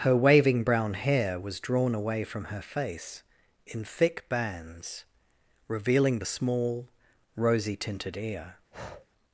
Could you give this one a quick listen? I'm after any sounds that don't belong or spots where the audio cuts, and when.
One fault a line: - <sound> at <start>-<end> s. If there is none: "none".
- breath at 8.7-9.1 s